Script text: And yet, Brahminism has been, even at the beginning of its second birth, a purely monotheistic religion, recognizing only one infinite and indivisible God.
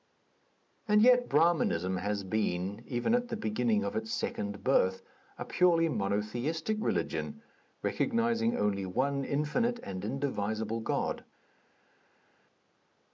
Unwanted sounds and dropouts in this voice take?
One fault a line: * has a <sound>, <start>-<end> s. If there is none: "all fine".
all fine